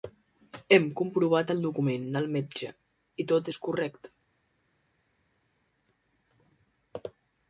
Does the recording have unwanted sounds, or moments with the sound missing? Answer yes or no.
no